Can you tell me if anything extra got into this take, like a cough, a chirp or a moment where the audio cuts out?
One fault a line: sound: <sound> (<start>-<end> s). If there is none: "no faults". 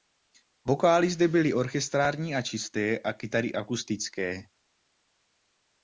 no faults